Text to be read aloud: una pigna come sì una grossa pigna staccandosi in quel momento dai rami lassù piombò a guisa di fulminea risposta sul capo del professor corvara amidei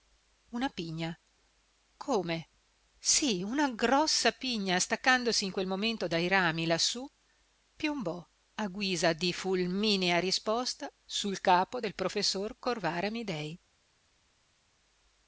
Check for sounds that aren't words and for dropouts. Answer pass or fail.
pass